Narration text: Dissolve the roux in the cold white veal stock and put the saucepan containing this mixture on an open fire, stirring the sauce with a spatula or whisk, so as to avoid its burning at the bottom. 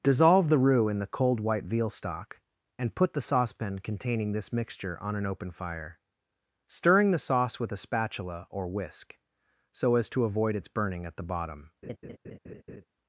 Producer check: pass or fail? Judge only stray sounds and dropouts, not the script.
fail